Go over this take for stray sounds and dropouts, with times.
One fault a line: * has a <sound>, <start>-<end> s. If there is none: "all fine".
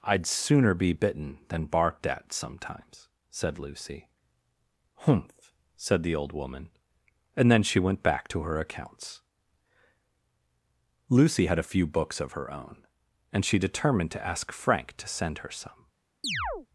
* has a chirp, 16.2-16.7 s